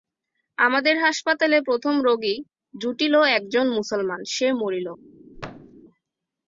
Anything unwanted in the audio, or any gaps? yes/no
yes